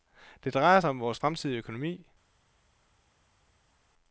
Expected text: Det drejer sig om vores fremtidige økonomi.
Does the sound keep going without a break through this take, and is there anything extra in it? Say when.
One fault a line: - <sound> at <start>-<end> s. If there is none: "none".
none